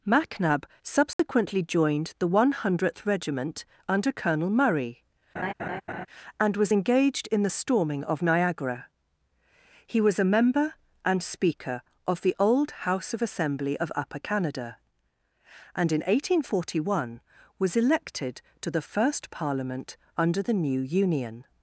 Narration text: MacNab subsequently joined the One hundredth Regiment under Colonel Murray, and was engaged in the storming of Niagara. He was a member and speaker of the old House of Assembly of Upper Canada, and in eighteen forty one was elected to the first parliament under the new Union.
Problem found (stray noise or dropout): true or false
true